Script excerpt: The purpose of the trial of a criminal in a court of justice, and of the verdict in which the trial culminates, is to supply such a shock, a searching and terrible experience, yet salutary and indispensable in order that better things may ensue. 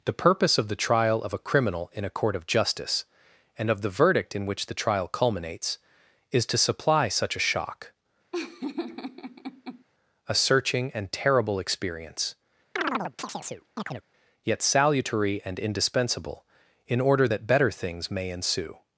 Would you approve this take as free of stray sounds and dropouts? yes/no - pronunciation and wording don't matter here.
no